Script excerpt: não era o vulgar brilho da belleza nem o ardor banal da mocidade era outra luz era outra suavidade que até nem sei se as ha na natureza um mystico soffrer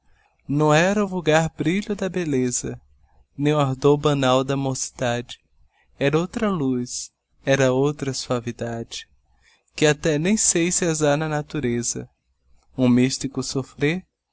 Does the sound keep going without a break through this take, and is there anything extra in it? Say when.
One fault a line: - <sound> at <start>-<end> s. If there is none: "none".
none